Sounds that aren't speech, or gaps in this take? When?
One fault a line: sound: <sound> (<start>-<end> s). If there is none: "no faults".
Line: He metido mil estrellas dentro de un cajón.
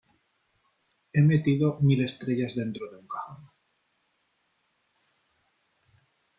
no faults